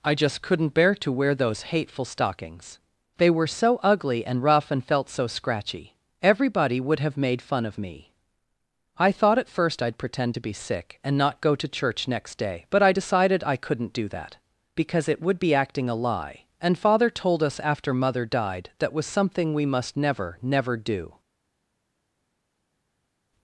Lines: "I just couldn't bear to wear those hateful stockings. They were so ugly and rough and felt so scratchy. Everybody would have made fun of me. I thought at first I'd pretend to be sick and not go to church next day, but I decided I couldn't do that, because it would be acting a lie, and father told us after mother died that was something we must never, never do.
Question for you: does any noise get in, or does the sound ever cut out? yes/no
no